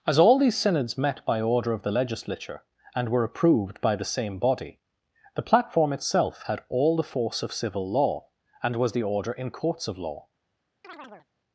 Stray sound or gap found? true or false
true